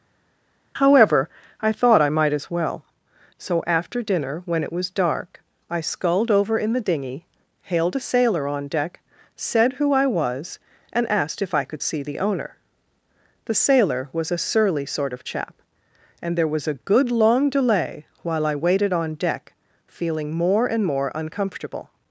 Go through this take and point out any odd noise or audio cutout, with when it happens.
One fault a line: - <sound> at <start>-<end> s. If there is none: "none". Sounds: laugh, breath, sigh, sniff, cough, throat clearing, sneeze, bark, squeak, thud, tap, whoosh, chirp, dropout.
none